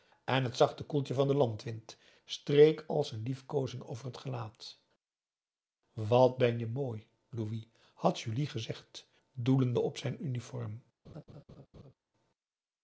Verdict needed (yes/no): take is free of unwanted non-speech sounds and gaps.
no